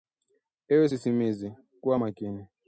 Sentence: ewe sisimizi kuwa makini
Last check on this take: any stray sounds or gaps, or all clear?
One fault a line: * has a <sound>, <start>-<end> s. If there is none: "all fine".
all fine